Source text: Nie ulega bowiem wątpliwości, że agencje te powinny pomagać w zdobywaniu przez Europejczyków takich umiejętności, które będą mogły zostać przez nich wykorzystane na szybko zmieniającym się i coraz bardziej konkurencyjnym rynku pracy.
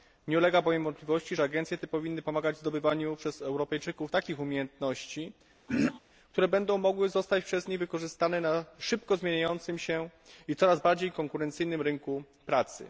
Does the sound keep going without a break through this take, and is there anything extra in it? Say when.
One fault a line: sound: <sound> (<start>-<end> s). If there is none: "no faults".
sound: throat clearing (5.7-6.0 s)